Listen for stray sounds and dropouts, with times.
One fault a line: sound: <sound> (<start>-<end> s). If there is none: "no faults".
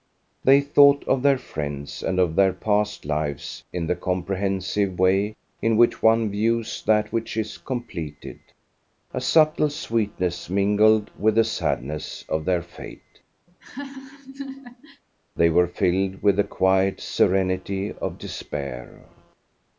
sound: laugh (13.5-15.0 s)